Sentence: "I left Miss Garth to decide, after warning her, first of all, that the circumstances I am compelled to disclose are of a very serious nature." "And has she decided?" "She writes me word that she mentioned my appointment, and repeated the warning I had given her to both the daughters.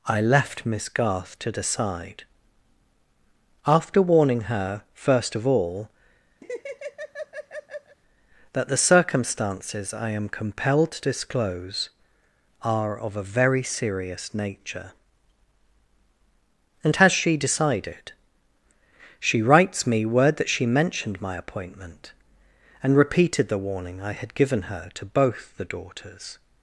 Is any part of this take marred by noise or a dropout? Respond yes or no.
yes